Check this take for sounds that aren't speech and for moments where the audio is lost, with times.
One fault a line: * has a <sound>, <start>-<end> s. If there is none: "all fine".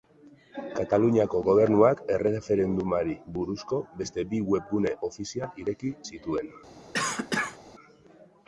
* has a cough, 6.9-7.6 s